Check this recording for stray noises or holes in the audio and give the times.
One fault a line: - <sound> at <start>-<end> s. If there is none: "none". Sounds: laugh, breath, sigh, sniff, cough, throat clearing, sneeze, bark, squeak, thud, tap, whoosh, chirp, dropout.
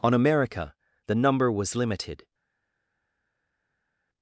none